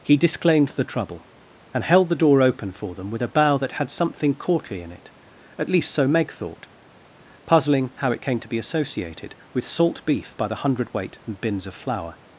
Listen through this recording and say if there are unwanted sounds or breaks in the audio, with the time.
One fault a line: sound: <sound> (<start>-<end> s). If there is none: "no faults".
no faults